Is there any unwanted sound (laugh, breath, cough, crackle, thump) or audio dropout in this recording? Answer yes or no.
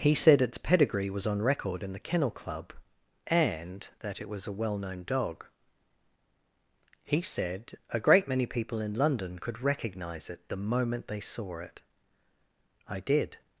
no